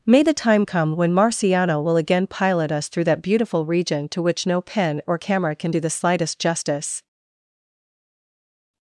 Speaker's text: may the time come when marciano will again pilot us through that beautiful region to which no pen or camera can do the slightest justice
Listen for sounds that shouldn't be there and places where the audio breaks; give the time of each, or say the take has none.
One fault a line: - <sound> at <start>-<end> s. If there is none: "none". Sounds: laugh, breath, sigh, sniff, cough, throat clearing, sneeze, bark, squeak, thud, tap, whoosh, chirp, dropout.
none